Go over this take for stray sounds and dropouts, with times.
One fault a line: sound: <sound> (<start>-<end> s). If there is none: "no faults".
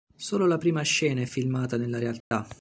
sound: dropout (2.2-2.3 s)